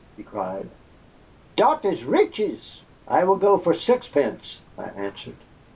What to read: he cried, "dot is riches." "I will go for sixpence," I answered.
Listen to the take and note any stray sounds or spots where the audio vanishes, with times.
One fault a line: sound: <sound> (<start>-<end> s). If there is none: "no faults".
no faults